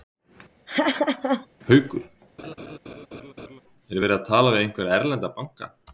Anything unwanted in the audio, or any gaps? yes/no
yes